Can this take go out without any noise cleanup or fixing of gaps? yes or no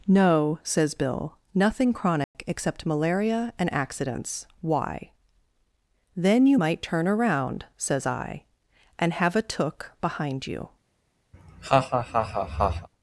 no